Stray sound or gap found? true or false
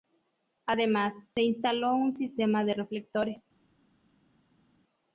false